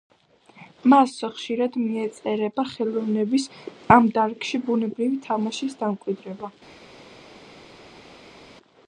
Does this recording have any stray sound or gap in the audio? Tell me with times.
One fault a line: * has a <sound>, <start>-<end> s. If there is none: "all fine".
all fine